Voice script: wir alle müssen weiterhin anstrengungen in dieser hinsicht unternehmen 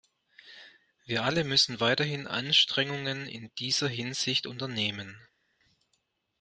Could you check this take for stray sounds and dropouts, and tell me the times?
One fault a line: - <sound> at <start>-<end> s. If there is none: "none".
none